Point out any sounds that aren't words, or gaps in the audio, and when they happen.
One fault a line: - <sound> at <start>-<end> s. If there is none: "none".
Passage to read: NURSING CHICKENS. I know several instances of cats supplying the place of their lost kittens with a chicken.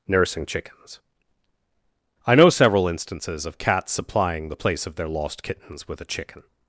none